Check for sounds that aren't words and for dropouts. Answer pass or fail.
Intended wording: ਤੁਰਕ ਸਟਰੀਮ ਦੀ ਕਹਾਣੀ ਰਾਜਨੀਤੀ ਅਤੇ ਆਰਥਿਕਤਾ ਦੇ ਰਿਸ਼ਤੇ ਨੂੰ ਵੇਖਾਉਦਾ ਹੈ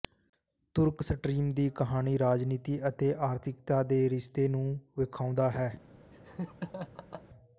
fail